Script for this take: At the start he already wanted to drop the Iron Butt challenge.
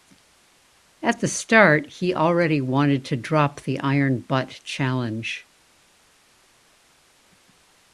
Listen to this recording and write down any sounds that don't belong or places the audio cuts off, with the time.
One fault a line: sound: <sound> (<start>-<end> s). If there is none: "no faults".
no faults